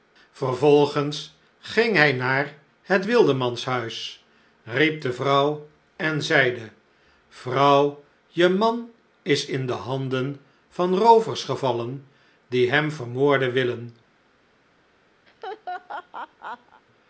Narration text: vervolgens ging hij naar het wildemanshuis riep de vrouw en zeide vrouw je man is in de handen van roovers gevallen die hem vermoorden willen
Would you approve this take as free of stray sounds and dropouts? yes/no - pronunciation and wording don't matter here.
no